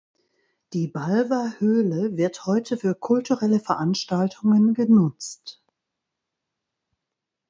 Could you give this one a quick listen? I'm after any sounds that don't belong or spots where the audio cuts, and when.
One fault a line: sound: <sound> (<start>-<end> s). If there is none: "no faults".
no faults